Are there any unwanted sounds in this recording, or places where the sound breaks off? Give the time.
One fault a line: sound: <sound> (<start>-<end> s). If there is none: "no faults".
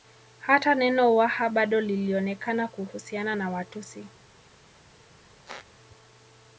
sound: squeak (5.5-5.7 s)